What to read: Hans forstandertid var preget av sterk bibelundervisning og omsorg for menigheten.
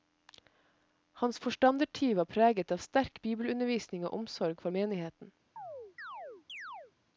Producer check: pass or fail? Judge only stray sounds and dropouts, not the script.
fail